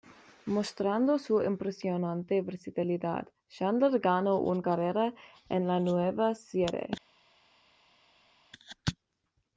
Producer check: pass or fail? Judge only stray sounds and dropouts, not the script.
pass